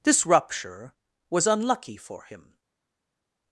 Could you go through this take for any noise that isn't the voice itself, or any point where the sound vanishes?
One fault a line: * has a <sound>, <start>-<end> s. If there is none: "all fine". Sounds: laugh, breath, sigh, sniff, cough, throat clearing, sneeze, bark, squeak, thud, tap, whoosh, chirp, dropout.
all fine